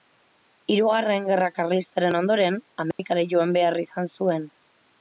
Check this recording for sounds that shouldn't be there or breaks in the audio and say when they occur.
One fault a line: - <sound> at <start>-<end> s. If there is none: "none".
- dropout at 2.9-3.0 s